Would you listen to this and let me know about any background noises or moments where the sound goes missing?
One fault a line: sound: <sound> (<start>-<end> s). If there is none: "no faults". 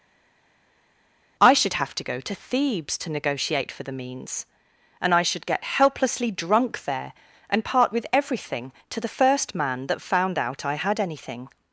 no faults